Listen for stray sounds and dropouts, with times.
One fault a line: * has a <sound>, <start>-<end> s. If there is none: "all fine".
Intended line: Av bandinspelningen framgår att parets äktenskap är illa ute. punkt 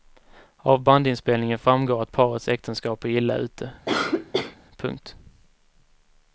* has a cough, 3.9-4.6 s